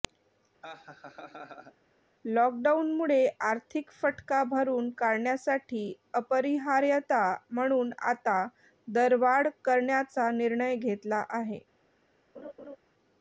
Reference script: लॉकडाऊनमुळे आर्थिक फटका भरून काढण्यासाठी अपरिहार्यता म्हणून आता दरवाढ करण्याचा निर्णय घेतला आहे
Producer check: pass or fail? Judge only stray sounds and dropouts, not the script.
fail